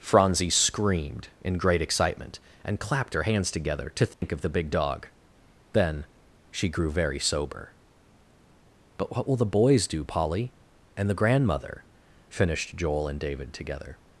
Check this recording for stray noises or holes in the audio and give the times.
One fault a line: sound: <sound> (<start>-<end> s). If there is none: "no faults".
sound: dropout (4.1-4.2 s)